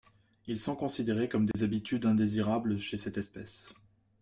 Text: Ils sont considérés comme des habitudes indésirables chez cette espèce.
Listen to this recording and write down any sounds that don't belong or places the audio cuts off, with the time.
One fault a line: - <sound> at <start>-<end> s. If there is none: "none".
- dropout at 1.5-1.5 s